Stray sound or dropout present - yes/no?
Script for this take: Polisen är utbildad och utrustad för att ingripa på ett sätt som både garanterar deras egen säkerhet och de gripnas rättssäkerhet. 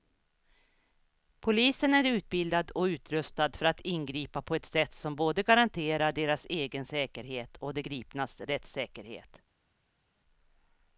no